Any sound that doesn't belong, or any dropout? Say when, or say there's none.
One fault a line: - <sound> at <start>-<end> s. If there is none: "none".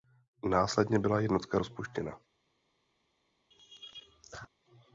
- laugh at 3.5-4.5 s